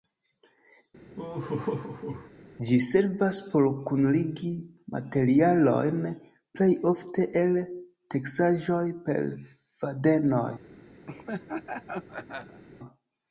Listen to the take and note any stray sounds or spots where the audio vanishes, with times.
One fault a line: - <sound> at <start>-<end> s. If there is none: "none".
- laugh at 1.2-2.3 s
- laugh at 11.1-12.6 s